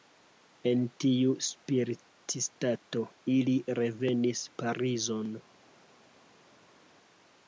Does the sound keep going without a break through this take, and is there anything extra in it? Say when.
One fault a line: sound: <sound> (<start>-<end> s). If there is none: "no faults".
no faults